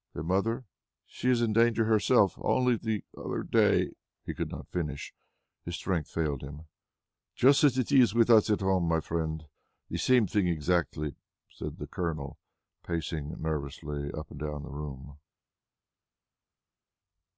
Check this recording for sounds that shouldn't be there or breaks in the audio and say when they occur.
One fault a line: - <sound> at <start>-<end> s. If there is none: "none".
none